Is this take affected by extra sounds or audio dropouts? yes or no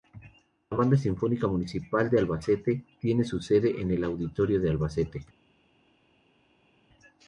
no